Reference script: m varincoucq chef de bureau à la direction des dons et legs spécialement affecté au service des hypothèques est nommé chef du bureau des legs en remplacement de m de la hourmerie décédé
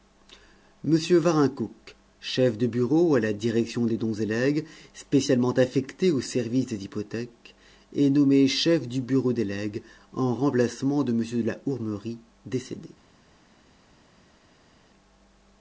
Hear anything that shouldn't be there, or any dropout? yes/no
no